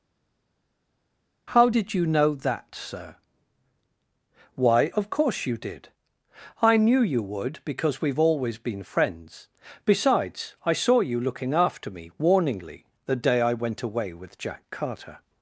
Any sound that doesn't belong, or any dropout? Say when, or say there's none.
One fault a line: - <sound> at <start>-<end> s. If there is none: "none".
none